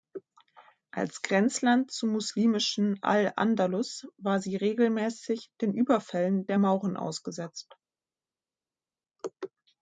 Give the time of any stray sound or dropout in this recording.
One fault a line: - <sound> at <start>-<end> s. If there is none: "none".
none